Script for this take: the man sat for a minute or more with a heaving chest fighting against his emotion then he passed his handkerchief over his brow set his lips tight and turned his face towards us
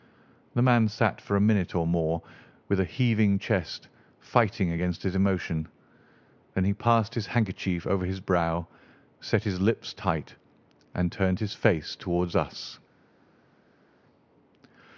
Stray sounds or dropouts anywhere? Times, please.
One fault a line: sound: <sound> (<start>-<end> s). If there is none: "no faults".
no faults